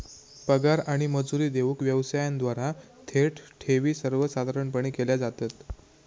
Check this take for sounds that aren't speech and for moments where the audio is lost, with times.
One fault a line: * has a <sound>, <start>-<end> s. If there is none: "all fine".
all fine